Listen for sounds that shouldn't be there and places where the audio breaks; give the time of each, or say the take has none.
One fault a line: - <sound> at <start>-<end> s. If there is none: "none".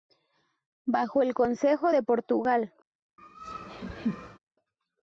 - laugh at 3.2-4.4 s